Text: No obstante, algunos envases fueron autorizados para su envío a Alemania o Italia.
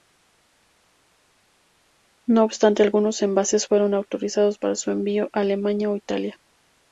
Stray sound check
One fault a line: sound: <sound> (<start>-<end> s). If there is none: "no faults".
no faults